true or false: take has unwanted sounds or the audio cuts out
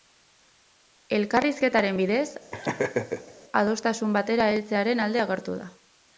true